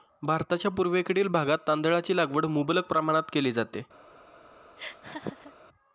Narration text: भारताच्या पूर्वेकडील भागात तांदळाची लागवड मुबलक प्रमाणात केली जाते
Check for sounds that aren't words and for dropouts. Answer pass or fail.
fail